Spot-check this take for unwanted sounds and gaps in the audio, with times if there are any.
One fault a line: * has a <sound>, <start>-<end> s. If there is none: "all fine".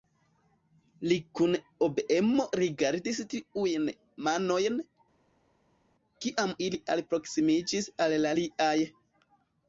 all fine